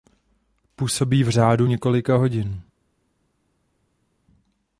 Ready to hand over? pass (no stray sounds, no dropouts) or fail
pass